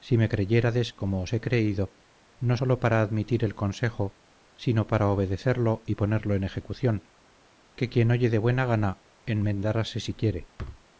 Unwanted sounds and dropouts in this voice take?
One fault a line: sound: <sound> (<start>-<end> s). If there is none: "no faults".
sound: thud (10.6-10.8 s)